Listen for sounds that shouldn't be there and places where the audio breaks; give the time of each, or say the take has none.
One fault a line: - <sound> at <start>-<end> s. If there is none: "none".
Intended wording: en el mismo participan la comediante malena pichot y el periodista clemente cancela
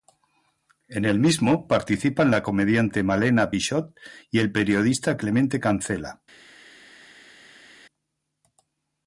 none